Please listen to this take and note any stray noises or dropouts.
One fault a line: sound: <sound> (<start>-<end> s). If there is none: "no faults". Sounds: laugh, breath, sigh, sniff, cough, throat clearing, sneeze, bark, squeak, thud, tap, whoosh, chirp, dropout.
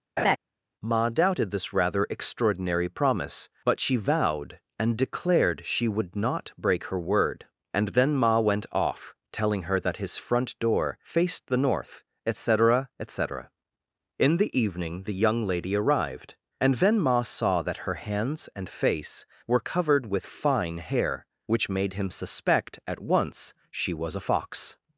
sound: laugh (0.2-0.4 s)